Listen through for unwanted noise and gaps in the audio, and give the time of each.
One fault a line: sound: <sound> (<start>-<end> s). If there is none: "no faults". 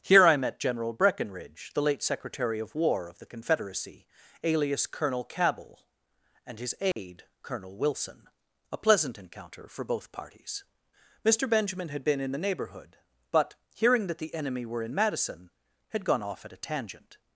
sound: dropout (6.9-7.0 s)